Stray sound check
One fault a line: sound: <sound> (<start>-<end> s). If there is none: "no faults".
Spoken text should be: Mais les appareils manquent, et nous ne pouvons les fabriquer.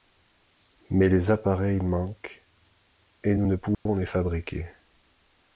sound: dropout (3.7-3.9 s)